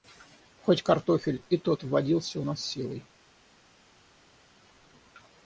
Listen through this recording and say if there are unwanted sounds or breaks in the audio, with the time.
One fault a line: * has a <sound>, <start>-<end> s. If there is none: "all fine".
all fine